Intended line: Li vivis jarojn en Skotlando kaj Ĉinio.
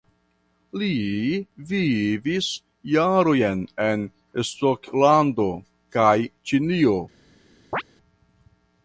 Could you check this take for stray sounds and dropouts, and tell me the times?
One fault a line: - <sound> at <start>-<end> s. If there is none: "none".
- chirp at 7.7-7.8 s